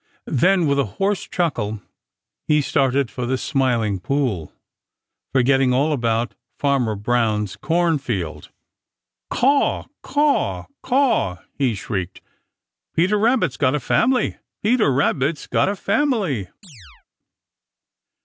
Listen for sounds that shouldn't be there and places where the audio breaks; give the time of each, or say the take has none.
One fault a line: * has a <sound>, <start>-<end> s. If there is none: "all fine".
* has a chirp, 16.6-17.1 s